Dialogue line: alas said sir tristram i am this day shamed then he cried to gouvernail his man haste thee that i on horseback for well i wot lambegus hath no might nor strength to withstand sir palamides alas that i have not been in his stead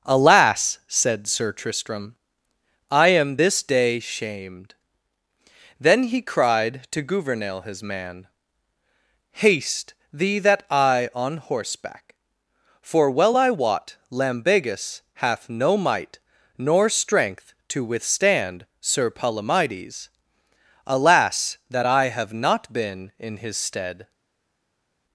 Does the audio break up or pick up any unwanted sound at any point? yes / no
no